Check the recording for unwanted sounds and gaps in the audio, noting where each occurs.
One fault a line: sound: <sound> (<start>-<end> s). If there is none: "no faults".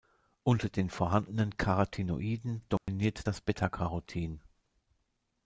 sound: dropout (2.8-2.9 s)